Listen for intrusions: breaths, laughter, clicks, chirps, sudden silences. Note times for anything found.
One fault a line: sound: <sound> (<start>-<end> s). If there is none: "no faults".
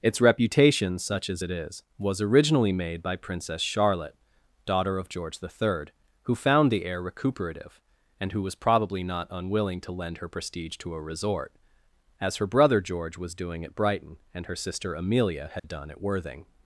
sound: dropout (15.6-15.6 s)